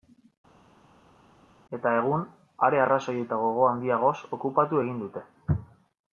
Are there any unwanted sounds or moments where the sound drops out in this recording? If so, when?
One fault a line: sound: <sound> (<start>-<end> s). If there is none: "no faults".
no faults